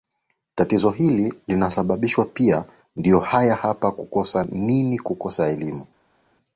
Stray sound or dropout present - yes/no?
no